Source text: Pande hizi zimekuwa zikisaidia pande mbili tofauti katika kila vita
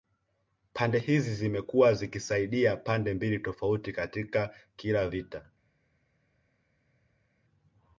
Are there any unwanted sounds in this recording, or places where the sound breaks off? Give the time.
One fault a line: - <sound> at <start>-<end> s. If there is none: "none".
none